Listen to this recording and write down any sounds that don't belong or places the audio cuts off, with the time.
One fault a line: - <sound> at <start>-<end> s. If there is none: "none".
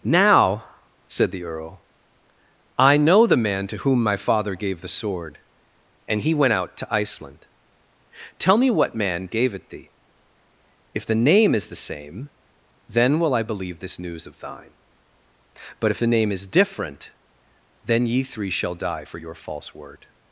none